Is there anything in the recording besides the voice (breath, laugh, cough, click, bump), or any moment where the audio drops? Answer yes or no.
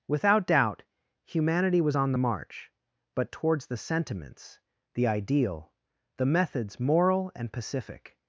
no